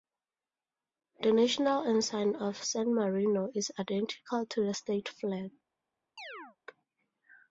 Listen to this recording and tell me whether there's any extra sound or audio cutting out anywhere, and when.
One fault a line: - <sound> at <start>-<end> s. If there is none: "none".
- chirp at 6.2-6.6 s